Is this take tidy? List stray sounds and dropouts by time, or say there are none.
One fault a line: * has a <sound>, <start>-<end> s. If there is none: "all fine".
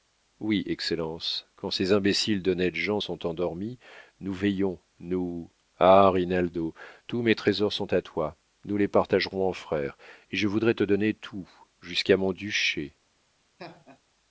* has a laugh, 13.6-14.0 s